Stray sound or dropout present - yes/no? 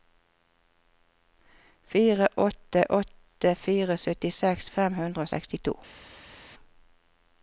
no